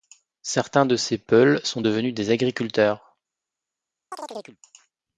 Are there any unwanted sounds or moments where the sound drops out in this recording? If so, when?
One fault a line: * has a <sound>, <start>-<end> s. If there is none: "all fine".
* has a chirp, 4.1-4.6 s